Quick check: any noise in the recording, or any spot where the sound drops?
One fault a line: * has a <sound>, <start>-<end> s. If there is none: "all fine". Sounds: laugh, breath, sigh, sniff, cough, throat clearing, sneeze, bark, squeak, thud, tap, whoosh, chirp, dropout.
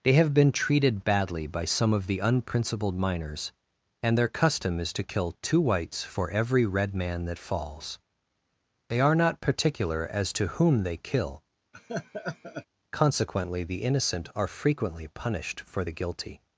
* has a laugh, 11.7-12.7 s